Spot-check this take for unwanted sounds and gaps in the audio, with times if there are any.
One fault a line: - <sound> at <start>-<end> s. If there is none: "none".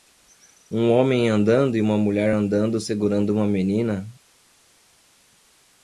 none